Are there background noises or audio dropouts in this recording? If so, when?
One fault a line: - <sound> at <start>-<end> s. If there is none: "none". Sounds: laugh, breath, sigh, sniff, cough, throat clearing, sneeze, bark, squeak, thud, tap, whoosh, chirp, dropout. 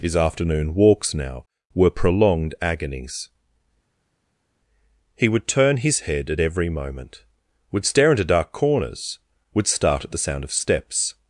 none